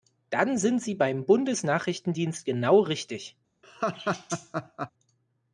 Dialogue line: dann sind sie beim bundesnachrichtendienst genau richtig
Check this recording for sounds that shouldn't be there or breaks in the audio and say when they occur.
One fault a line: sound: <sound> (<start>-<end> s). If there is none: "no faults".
sound: laugh (3.6-4.9 s)